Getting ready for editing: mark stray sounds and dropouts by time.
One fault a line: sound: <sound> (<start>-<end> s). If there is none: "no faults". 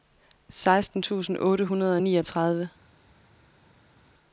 no faults